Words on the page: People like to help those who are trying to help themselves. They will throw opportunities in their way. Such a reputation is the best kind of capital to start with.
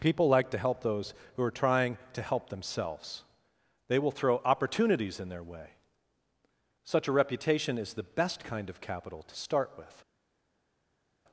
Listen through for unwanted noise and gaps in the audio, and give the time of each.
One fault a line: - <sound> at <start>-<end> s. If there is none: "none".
none